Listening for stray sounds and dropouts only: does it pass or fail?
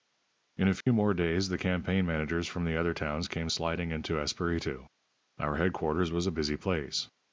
fail